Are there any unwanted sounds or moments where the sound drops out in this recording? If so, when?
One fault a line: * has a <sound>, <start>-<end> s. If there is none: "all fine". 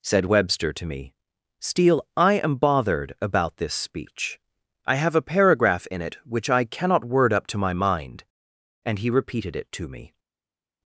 all fine